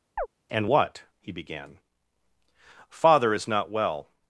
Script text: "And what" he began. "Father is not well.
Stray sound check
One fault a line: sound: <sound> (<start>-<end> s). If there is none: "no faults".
sound: chirp (0.2-0.3 s)